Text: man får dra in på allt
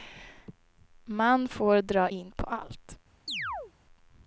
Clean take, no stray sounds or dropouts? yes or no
no